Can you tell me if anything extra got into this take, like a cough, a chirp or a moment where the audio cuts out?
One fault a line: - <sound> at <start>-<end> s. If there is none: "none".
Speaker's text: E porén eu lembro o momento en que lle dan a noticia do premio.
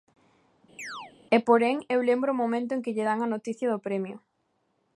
- chirp at 0.8-1.1 s